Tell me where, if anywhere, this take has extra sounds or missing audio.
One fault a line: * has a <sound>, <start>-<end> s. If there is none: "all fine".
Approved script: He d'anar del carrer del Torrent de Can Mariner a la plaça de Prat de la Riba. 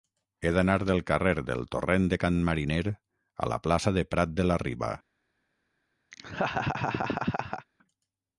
* has a laugh, 6.1-7.7 s